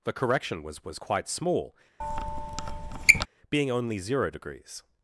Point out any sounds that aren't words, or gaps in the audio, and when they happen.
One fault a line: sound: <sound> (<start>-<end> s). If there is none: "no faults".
sound: squeak (2.0-3.3 s)